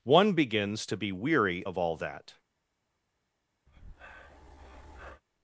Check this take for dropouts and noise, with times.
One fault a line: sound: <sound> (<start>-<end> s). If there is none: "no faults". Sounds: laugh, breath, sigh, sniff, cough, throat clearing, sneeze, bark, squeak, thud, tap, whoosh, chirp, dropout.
sound: breath (3.7-5.2 s)